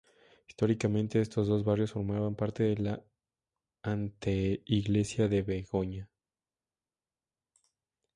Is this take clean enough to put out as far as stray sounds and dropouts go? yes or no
yes